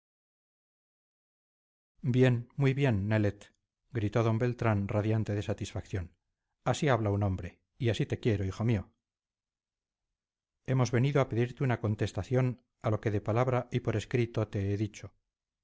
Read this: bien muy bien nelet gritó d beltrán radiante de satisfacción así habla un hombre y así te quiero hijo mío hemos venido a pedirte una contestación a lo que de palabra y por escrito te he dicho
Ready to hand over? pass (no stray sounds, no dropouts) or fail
pass